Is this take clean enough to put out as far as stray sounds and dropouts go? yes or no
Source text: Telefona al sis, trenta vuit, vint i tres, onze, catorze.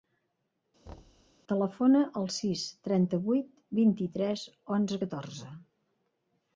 no